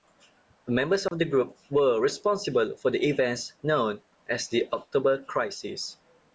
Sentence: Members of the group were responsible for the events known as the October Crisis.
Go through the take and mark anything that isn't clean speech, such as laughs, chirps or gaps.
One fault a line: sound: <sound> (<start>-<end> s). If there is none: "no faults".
sound: dropout (1.1-1.1 s)